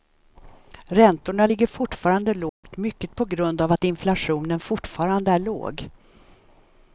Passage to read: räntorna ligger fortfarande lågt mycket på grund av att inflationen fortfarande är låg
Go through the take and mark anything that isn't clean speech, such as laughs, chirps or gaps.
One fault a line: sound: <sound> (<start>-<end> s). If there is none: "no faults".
sound: dropout (2.5-2.6 s)